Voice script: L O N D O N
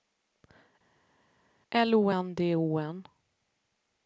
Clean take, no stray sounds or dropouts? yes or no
yes